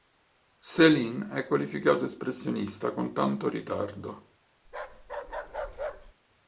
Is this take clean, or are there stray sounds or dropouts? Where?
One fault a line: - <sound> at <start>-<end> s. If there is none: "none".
- bark at 4.6-6.1 s